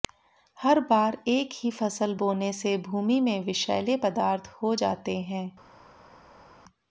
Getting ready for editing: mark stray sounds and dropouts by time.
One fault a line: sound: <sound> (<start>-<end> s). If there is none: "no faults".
no faults